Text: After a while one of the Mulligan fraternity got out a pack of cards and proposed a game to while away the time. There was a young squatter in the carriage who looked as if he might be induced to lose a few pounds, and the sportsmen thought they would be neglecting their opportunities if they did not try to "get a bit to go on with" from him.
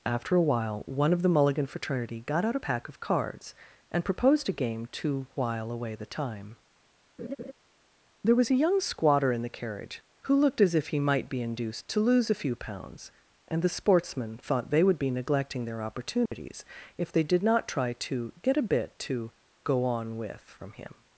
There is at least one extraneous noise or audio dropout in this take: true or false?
true